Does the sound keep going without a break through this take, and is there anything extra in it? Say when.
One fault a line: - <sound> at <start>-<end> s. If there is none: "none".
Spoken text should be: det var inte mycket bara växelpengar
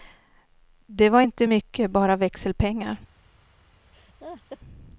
- laugh at 3.9-4.6 s